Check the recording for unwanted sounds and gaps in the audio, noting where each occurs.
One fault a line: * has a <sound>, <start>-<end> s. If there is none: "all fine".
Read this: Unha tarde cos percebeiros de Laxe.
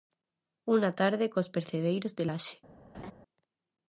* has a laugh, 2.9-3.1 s